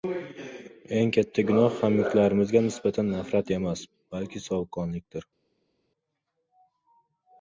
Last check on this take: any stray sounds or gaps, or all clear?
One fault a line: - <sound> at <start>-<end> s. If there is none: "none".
none